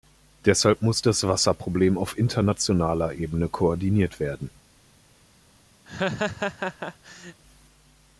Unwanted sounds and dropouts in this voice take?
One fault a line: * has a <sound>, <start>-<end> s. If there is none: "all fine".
* has a laugh, 5.9-7.4 s